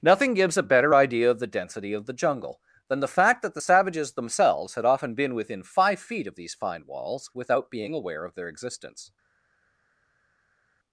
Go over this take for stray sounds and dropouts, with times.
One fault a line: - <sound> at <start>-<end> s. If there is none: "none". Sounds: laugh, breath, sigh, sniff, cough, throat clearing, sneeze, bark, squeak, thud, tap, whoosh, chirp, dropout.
none